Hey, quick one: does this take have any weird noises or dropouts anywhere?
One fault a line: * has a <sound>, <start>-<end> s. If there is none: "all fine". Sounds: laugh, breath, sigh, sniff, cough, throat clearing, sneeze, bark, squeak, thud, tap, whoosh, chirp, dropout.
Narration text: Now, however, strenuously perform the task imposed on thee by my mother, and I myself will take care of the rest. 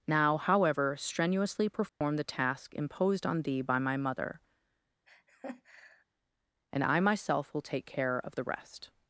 * has a dropout, 1.9-2.0 s
* has a laugh, 5.1-6.0 s